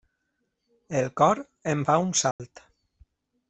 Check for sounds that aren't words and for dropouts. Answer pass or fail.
fail